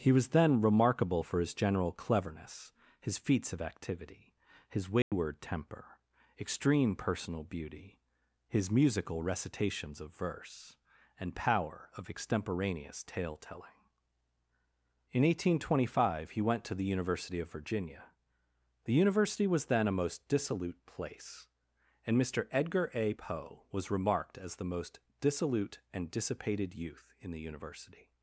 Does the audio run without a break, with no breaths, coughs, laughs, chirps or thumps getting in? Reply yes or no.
no